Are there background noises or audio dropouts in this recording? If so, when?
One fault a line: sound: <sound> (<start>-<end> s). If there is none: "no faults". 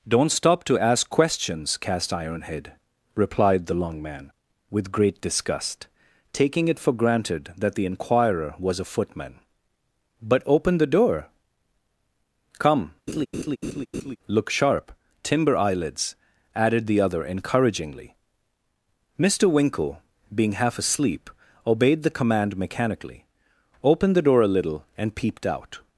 sound: laugh (13.1-14.2 s)